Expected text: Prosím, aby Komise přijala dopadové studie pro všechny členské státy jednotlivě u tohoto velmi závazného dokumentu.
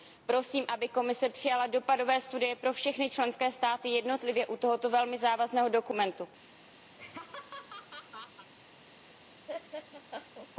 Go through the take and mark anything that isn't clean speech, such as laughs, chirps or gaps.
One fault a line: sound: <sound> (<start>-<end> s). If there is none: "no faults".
sound: laugh (6.9-8.5 s)
sound: laugh (9.5-10.5 s)